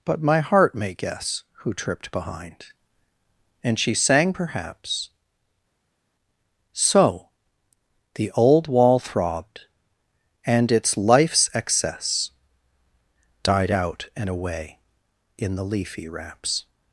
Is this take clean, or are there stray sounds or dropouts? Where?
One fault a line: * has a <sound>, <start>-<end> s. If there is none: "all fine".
all fine